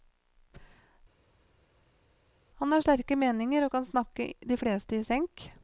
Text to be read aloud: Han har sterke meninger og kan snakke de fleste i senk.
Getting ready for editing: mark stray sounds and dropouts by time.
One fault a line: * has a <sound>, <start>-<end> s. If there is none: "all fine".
all fine